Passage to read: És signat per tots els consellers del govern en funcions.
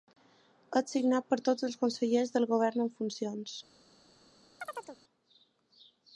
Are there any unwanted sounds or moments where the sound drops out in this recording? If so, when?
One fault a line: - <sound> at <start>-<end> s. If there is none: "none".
- chirp at 4.6-5.0 s